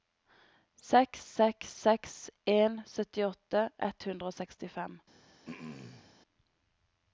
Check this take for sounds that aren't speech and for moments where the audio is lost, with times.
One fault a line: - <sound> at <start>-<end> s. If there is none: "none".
- throat clearing at 5.4-6.1 s